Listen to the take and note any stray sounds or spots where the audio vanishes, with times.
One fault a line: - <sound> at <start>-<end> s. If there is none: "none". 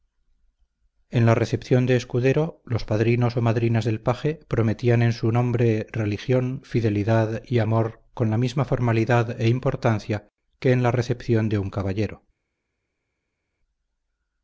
none